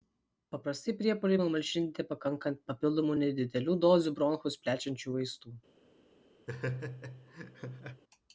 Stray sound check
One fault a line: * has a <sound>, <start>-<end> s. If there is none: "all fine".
* has a laugh, 6.5-8.0 s